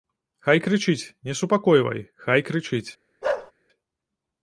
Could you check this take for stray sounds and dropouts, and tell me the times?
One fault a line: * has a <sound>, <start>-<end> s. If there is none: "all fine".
* has a bark, 3.2-3.5 s